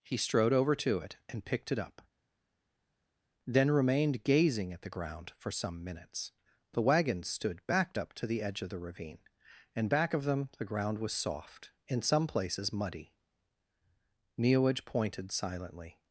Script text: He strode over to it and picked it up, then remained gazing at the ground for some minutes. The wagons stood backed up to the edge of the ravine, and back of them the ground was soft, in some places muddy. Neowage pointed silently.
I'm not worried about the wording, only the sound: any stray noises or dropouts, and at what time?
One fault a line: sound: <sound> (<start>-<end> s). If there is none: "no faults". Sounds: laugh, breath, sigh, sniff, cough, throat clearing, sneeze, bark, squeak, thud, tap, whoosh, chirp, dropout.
no faults